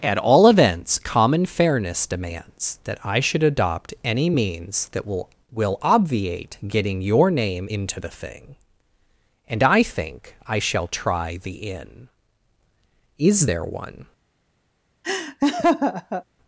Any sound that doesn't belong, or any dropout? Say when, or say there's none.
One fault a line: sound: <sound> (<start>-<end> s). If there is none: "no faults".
sound: laugh (15.0-16.2 s)